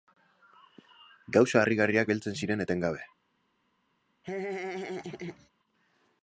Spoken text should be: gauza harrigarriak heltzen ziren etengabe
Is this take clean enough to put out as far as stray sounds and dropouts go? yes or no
no